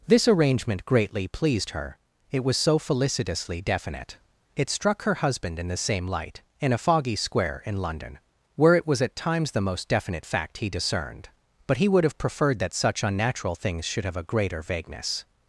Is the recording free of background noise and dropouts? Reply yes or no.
yes